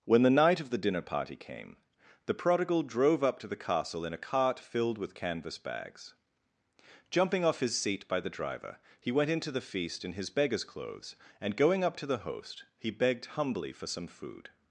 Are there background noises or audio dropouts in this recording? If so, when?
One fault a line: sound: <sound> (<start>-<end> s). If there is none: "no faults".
no faults